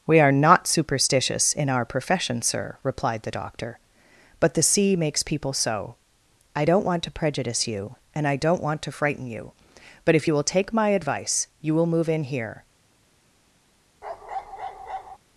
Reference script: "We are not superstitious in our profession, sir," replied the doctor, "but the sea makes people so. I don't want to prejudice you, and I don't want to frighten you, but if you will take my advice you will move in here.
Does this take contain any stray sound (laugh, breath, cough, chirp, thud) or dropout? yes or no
yes